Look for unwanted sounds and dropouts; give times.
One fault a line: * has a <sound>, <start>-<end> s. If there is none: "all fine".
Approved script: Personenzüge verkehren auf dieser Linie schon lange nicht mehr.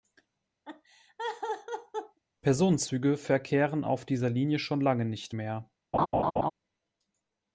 * has a laugh, 0.6-2.2 s
* has a laugh, 5.9-6.5 s